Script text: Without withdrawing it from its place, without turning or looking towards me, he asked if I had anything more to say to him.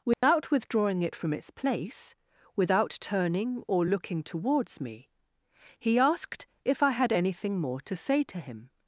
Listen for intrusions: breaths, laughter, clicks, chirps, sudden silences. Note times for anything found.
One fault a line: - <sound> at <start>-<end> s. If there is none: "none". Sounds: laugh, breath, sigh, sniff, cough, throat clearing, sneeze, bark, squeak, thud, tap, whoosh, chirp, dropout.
- dropout at 0.1-0.2 s